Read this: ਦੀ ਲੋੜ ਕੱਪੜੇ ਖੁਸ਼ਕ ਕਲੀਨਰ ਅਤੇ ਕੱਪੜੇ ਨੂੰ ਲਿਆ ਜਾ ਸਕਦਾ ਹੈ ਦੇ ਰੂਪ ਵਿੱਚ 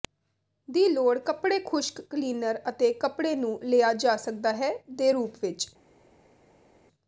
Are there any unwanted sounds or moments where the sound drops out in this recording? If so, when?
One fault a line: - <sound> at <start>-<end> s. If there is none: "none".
none